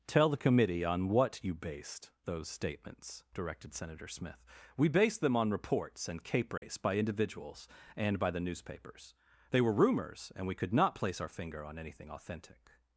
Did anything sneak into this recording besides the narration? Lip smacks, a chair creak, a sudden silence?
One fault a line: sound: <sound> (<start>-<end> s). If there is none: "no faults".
sound: dropout (6.6-6.6 s)